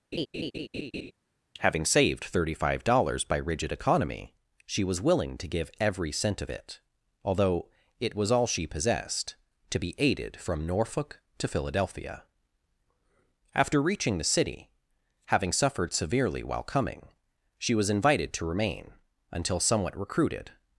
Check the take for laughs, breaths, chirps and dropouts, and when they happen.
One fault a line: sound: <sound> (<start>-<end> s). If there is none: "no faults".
sound: laugh (0.1-1.1 s)